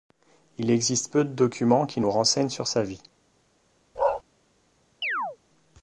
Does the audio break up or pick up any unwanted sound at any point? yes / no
yes